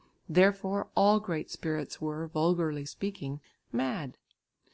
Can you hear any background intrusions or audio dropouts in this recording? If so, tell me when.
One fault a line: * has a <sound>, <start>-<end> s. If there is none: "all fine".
all fine